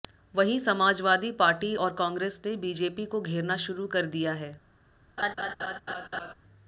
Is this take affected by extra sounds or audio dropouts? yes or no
yes